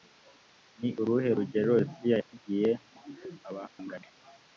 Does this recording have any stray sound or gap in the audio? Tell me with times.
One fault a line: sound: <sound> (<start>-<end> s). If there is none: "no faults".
sound: dropout (3.7-3.8 s)